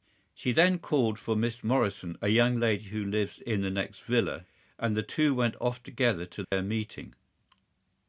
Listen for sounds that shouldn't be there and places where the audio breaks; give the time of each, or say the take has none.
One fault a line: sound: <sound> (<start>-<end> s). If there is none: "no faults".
sound: dropout (6.4-6.5 s)